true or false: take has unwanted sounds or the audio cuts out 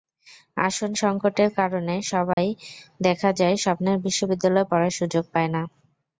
true